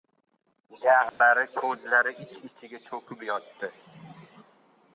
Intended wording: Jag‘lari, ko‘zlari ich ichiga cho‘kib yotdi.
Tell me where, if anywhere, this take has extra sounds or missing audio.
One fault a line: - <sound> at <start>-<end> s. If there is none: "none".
- dropout at 1.1-1.2 s